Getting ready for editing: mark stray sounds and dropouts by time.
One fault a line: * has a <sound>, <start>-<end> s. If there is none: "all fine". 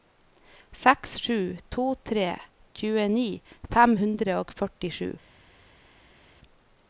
all fine